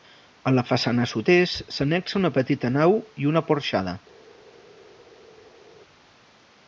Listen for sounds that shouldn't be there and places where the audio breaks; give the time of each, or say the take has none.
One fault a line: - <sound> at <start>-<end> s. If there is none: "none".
none